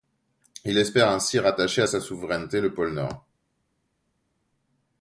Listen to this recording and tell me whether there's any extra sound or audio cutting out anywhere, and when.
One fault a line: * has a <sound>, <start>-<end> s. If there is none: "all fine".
all fine